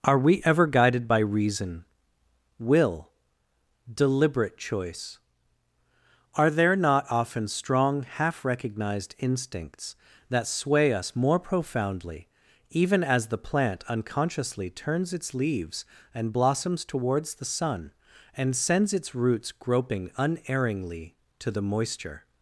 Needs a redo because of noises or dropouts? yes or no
no